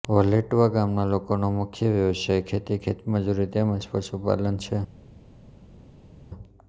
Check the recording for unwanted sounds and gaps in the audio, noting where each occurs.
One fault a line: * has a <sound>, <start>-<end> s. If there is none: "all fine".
all fine